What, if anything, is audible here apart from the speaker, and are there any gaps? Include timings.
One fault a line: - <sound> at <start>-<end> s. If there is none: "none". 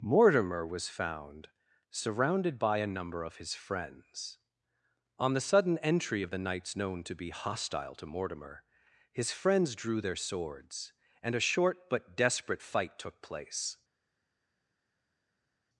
none